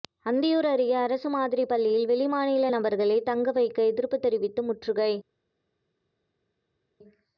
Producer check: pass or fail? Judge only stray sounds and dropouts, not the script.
pass